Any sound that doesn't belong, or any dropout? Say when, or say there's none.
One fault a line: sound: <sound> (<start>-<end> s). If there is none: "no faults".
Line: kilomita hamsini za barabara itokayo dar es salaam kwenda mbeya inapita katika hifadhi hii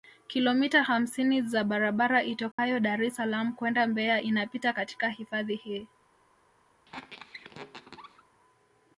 sound: dropout (2.5-2.6 s)
sound: squeak (6.9-8.2 s)